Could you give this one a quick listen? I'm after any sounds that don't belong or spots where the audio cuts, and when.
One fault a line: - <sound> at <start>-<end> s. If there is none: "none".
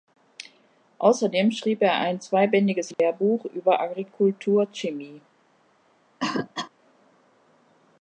- dropout at 2.9-3.0 s
- cough at 6.2-6.7 s